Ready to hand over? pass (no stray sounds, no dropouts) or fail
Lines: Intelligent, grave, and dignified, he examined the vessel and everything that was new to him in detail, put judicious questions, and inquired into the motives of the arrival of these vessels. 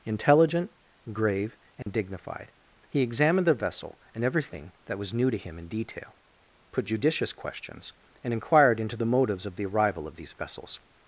fail